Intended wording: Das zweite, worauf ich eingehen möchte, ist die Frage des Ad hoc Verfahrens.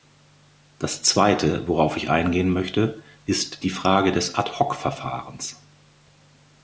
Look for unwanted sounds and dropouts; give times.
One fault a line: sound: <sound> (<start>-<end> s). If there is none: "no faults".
no faults